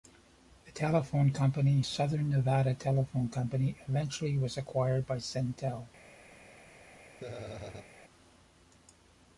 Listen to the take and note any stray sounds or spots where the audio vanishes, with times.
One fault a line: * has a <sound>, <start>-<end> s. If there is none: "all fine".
* has a laugh, 7.2-7.9 s